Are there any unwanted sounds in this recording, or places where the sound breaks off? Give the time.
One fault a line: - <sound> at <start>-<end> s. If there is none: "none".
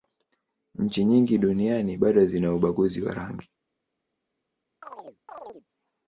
- chirp at 4.8-5.7 s